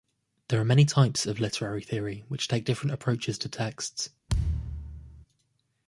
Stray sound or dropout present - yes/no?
yes